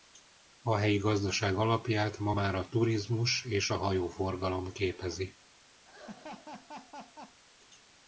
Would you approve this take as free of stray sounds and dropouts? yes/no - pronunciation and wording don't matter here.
no